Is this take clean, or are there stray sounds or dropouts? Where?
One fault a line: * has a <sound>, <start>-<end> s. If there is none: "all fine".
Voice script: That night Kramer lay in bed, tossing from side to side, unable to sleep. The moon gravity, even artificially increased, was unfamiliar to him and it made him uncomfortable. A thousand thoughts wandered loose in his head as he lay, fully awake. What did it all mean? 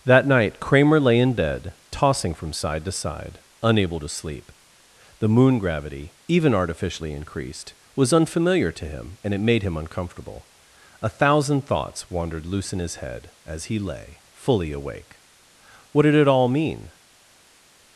all fine